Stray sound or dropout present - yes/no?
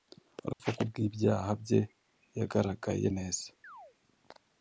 yes